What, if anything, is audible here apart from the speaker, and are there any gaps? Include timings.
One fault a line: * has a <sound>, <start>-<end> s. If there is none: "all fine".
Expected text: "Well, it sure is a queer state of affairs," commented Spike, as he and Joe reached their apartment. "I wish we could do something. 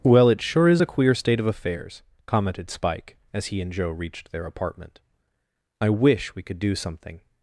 all fine